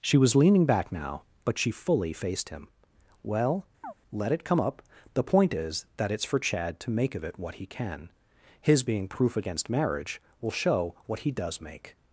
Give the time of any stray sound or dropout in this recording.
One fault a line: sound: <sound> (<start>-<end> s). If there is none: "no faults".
sound: chirp (3.8-3.9 s)